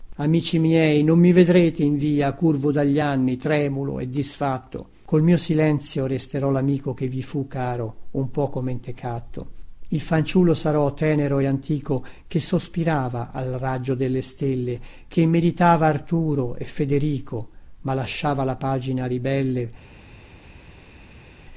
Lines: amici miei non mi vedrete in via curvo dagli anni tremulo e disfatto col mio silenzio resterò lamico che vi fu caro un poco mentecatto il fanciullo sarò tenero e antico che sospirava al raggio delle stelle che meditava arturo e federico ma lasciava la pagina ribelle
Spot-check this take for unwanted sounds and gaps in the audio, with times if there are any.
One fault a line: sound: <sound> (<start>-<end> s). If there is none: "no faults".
no faults